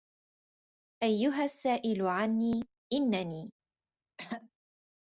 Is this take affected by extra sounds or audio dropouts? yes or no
yes